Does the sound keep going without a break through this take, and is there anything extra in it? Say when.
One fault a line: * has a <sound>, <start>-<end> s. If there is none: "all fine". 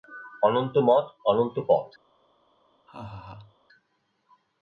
* has a laugh, 2.9-3.6 s